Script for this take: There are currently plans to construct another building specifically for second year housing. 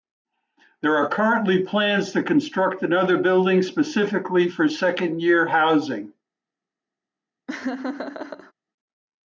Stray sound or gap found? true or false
true